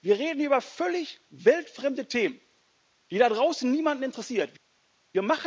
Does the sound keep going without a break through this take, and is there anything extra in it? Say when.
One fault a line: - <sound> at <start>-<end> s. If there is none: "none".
none